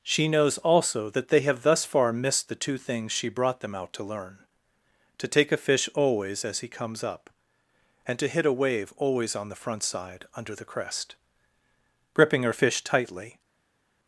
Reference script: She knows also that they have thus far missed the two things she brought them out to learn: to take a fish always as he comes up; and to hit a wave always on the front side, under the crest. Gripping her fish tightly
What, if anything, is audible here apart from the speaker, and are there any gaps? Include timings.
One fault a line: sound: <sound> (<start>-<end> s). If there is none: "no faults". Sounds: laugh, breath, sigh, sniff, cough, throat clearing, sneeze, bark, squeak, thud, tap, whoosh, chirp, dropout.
no faults